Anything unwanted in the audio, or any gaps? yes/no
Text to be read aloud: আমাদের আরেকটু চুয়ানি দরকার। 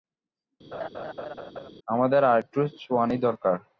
yes